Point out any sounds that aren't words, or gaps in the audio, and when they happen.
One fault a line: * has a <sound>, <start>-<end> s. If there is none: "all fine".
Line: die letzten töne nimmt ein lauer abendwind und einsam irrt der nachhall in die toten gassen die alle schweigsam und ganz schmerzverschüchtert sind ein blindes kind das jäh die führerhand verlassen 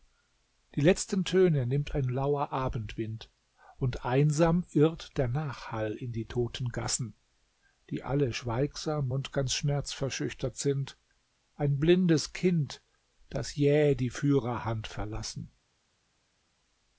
all fine